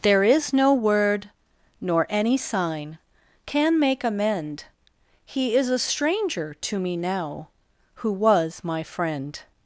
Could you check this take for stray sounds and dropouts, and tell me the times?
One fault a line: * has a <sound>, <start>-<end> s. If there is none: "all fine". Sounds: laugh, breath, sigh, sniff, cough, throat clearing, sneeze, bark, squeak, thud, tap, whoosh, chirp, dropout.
all fine